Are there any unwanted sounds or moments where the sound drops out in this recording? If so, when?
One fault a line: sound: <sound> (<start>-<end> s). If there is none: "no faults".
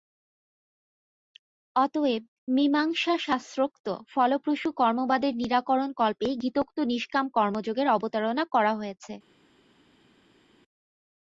no faults